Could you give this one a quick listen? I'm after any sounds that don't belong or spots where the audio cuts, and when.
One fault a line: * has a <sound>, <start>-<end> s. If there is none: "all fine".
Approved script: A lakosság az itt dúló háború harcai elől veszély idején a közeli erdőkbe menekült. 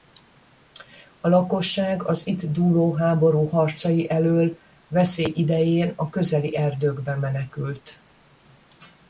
all fine